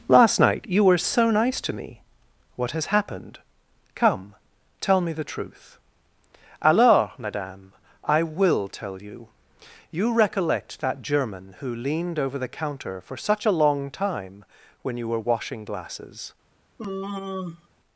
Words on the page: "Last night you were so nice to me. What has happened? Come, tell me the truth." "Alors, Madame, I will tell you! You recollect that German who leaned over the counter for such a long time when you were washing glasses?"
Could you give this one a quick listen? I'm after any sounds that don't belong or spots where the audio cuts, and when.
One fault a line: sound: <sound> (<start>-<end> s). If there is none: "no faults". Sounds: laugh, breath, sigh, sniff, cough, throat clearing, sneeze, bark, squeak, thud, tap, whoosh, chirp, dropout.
sound: sigh (16.8-17.7 s)